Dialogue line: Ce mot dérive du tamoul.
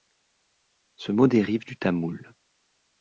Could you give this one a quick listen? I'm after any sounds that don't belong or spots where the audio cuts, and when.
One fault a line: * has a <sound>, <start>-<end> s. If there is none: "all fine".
all fine